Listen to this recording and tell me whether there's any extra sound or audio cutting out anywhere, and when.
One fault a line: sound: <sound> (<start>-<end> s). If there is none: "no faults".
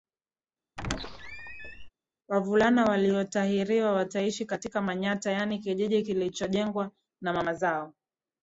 sound: squeak (0.8-1.9 s)